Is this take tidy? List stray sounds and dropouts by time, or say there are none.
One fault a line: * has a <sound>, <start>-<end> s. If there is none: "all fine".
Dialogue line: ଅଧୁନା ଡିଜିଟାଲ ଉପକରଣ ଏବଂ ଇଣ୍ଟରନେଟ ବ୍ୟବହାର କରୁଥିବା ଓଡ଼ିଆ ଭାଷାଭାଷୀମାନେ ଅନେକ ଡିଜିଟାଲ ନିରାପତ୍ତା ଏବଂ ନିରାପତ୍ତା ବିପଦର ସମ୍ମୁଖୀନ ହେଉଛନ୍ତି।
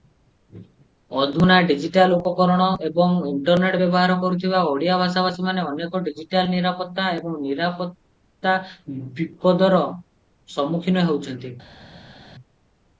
all fine